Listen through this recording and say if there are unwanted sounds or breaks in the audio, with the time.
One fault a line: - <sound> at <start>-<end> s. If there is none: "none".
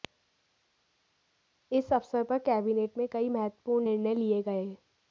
none